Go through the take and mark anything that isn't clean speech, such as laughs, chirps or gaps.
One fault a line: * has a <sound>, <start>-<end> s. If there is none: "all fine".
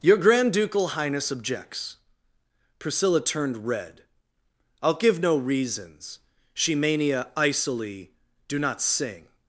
all fine